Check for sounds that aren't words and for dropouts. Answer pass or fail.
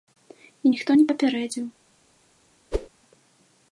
fail